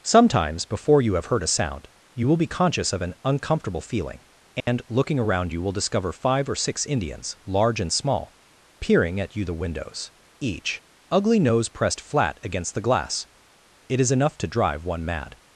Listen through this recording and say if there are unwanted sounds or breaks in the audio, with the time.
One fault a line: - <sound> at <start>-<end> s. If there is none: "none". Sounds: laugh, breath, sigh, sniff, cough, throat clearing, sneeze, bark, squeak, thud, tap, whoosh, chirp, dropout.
- dropout at 4.6-4.7 s